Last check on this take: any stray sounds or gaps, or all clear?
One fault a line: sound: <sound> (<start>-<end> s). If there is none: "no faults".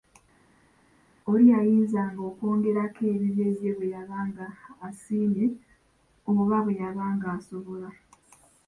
no faults